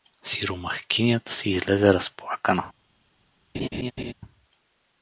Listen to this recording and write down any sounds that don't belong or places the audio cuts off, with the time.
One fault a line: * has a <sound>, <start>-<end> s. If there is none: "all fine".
* has a laugh, 3.5-4.1 s